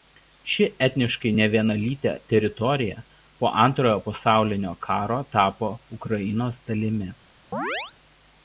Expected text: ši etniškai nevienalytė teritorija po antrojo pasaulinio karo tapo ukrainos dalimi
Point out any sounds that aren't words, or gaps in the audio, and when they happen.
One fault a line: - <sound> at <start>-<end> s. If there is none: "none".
- chirp at 7.5-7.9 s